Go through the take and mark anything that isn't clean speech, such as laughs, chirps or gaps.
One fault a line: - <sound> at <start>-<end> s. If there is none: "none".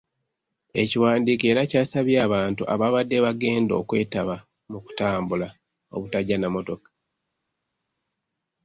none